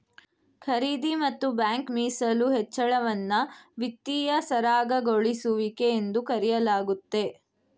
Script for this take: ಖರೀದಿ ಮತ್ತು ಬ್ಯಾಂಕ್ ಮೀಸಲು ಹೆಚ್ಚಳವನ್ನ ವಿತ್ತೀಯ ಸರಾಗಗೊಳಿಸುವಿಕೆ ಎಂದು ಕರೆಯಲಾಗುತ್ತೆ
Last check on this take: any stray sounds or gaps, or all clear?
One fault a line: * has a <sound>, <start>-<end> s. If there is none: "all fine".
all fine